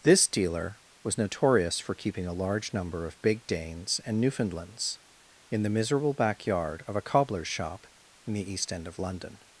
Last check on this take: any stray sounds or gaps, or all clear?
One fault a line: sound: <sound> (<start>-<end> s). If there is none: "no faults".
no faults